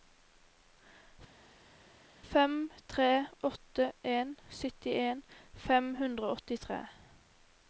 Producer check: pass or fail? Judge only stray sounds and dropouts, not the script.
pass